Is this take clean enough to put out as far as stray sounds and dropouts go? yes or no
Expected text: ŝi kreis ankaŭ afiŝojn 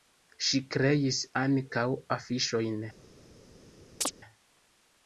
no